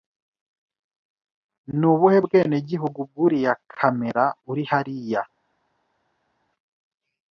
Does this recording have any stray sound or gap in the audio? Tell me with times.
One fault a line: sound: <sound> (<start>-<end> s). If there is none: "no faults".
no faults